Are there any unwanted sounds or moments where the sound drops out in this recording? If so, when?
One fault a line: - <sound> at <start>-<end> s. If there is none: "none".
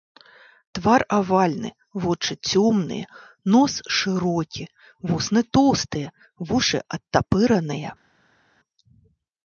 none